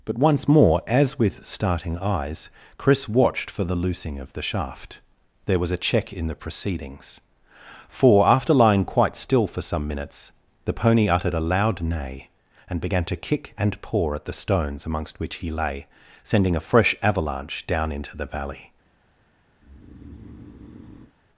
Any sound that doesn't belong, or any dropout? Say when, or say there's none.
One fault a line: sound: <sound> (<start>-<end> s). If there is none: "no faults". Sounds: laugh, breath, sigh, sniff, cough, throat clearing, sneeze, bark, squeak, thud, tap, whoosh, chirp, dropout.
sound: breath (19.6-21.1 s)